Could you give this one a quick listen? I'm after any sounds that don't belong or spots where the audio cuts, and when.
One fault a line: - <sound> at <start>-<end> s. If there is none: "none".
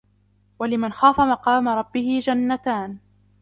none